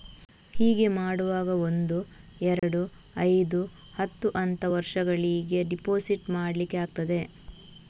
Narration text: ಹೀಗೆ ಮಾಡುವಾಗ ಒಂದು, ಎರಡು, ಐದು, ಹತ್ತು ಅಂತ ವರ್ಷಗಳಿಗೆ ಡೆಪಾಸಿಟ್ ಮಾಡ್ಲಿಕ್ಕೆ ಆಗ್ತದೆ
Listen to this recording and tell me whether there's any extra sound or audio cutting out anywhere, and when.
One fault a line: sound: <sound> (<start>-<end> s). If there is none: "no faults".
sound: dropout (2.6-2.6 s)